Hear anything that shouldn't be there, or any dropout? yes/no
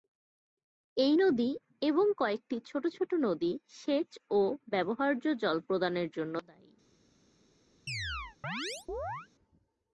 yes